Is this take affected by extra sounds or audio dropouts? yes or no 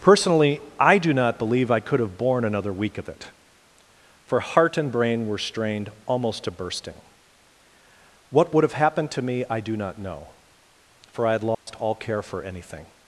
yes